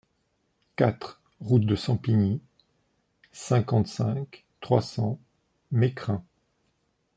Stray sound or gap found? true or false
false